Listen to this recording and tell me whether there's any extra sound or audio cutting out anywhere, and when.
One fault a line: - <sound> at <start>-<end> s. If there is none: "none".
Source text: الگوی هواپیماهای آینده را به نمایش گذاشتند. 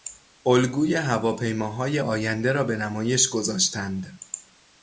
none